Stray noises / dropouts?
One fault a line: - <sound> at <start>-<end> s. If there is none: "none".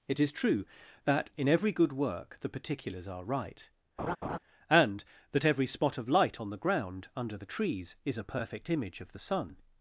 - laugh at 4.0-4.4 s